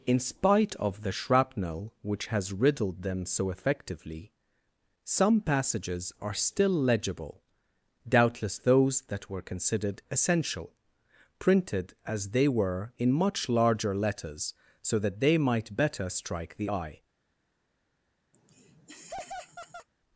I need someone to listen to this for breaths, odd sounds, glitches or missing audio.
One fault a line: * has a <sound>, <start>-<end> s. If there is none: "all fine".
* has a laugh, 18.3-19.9 s